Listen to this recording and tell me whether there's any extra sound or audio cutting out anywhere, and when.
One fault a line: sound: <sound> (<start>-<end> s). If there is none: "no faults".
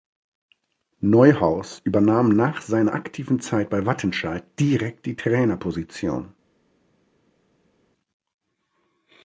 no faults